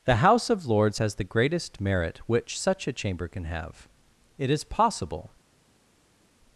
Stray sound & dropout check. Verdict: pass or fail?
pass